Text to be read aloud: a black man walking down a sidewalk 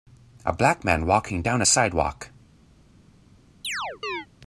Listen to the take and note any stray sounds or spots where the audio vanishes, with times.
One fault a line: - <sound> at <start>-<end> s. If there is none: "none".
- chirp at 3.6-4.3 s